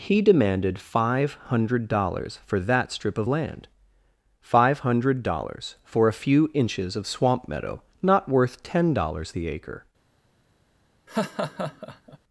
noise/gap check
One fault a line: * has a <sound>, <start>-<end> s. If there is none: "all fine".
* has a laugh, 11.1-12.2 s